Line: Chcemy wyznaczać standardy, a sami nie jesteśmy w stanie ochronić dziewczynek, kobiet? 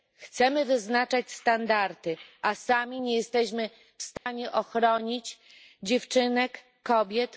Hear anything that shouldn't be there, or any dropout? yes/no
yes